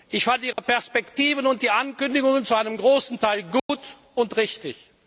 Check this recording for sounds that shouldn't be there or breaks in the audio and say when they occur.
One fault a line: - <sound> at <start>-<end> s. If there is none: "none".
- dropout at 0.5-0.6 s
- dropout at 3.6-3.7 s